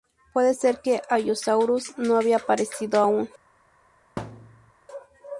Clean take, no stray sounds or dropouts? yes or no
no